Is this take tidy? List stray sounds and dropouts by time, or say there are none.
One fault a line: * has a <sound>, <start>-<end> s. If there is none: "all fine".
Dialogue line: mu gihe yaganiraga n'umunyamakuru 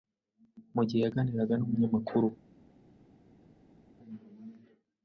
all fine